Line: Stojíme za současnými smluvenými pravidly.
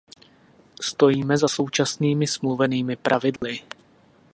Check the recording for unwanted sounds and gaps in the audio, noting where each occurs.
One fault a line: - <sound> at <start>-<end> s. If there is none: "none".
- dropout at 3.4-3.4 s